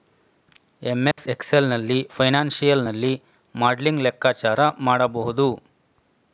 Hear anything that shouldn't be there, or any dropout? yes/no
yes